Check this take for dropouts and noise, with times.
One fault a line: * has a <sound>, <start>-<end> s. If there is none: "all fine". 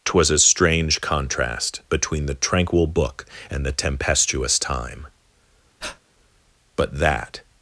* has a breath, 5.8-6.0 s